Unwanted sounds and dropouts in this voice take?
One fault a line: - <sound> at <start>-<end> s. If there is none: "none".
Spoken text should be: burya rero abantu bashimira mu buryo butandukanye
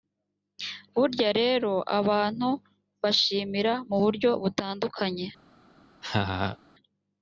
- laugh at 6.0-6.6 s